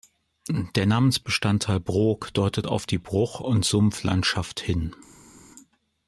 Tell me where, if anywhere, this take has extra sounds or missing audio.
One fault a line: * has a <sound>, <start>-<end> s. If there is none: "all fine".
all fine